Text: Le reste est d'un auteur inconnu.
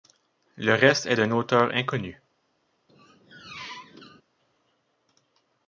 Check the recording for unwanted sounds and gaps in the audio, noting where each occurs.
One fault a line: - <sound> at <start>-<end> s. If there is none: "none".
- squeak at 2.9-4.2 s